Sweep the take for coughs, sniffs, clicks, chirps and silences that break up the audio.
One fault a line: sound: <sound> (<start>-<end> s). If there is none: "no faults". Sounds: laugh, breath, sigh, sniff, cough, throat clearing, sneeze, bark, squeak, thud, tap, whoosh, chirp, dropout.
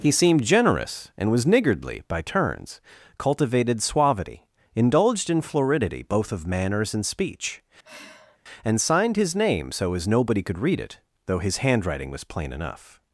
sound: sigh (7.8-8.4 s)